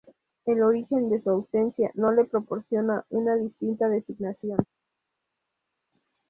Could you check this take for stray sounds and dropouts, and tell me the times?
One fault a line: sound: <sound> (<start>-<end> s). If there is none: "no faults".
no faults